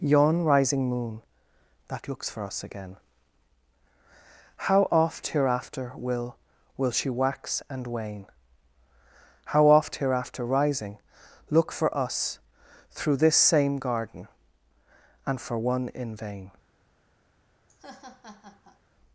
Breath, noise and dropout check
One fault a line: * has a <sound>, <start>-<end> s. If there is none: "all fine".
* has a laugh, 17.7-18.8 s